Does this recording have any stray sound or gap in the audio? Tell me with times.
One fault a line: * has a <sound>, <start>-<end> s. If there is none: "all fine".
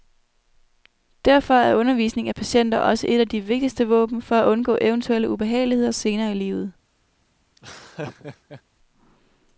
* has a laugh, 7.6-8.6 s